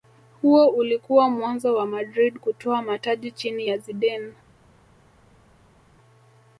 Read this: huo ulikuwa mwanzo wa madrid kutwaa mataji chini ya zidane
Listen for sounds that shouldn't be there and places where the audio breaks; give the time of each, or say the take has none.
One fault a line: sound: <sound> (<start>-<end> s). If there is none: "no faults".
no faults